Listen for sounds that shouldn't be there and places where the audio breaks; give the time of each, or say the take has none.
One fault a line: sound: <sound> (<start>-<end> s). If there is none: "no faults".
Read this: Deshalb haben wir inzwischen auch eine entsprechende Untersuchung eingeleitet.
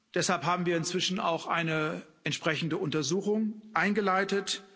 no faults